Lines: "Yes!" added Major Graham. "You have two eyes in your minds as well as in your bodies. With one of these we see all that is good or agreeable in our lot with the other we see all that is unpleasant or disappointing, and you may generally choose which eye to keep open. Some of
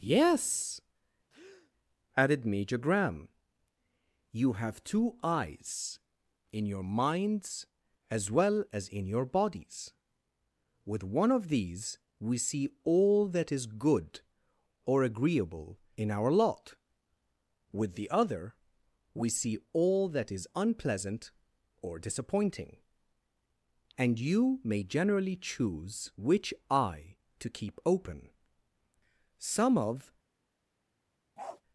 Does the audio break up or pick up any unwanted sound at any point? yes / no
yes